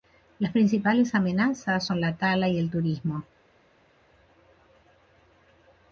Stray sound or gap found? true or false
false